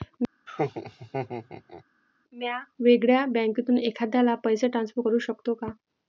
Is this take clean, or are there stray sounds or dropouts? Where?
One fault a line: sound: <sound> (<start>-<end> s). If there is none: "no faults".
sound: laugh (0.5-1.8 s)